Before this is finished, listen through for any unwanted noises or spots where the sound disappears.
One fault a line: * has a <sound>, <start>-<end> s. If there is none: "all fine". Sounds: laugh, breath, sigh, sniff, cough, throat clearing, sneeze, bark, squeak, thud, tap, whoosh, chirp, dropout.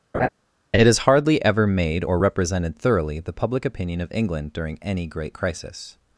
* has a laugh, 0.1-0.3 s